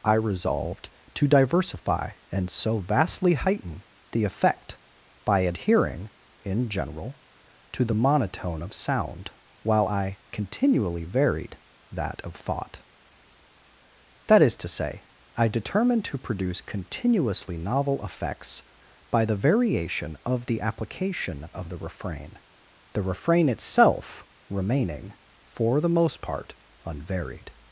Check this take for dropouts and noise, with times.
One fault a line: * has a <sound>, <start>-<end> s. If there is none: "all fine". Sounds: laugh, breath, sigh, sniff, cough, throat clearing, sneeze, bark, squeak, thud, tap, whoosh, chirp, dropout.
all fine